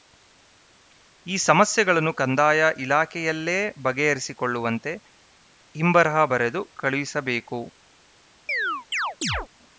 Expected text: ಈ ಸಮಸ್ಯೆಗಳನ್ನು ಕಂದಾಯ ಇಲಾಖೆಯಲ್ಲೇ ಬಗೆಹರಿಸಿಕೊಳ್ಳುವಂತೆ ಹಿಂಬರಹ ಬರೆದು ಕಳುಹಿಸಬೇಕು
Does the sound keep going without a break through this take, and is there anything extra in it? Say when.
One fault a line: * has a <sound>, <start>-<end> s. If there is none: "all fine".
* has a chirp, 8.5-9.5 s